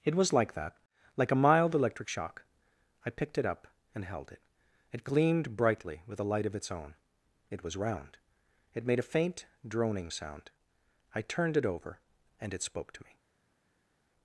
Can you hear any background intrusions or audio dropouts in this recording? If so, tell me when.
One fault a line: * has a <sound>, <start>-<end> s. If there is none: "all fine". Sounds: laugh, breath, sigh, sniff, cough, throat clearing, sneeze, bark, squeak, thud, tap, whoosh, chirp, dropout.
all fine